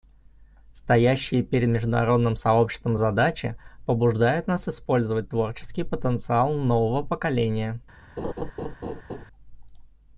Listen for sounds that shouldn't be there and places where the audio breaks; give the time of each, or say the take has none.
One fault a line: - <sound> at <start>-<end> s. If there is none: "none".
- laugh at 8.2-9.3 s